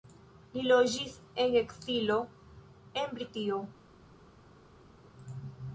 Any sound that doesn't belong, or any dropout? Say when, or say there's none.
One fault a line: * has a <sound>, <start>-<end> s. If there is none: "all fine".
all fine